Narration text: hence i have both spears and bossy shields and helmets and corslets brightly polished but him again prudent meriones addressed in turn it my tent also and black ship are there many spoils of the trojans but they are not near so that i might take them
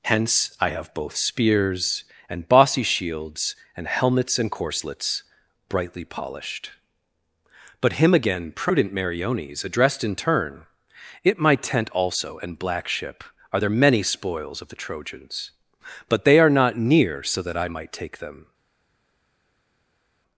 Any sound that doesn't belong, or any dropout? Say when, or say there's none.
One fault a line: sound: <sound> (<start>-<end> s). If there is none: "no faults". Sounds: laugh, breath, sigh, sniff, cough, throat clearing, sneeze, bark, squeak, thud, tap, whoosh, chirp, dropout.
no faults